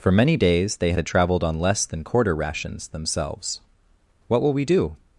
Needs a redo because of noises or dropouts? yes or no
no